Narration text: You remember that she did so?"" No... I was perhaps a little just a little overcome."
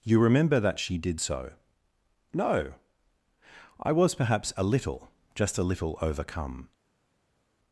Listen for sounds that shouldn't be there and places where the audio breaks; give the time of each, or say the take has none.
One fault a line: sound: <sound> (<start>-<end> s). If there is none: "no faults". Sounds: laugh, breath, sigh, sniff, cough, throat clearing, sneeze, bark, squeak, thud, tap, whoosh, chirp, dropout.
no faults